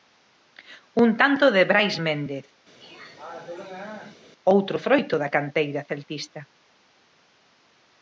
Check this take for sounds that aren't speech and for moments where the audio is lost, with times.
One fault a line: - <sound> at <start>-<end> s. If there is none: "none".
- throat clearing at 2.8-4.2 s